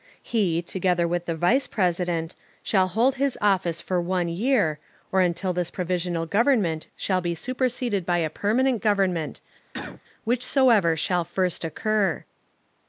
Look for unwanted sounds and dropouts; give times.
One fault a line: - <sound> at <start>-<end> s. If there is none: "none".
- cough at 9.7-10.0 s